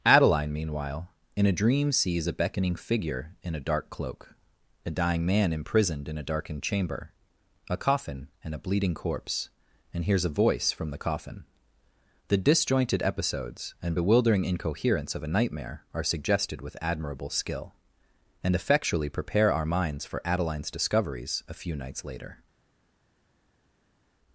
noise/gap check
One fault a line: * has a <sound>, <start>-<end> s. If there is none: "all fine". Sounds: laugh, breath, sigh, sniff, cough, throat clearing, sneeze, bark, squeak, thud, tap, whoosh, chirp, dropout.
all fine